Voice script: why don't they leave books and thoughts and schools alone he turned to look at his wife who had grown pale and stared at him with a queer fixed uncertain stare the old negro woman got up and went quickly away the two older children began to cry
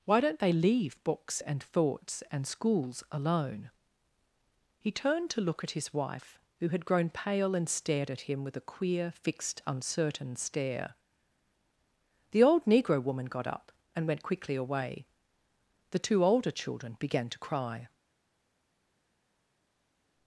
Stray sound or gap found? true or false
false